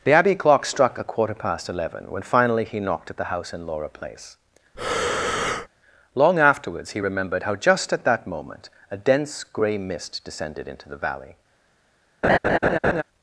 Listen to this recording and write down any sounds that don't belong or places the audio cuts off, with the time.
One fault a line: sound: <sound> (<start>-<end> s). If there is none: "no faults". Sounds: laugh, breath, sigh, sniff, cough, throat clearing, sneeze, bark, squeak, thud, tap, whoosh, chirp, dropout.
sound: breath (4.7-5.7 s)
sound: laugh (12.2-13.0 s)